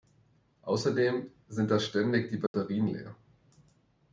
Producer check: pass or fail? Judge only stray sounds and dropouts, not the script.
fail